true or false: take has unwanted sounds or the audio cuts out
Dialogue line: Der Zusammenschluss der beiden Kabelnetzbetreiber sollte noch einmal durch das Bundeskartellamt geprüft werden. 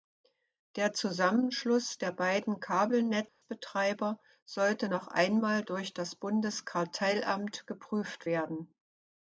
true